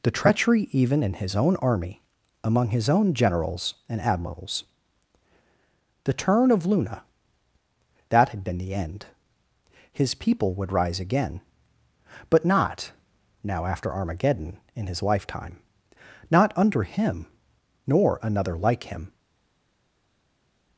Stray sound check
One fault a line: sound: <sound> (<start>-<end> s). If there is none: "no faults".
no faults